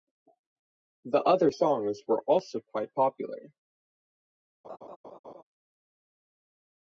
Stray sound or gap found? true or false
true